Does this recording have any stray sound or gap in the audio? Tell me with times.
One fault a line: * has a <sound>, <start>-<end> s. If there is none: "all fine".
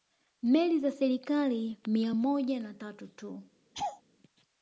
* has a laugh, 3.7-4.0 s